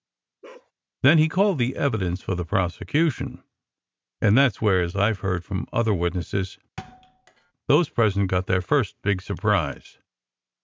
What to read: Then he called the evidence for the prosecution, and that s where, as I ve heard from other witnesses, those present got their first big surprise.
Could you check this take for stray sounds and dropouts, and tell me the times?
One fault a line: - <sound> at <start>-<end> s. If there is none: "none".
- bark at 0.4-0.7 s
- thud at 6.8-7.5 s